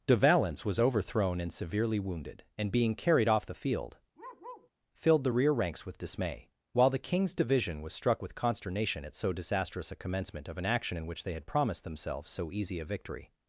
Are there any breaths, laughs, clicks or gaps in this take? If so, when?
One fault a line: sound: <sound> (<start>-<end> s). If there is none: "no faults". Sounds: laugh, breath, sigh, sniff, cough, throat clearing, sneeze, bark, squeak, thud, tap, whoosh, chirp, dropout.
sound: bark (4.2-4.7 s)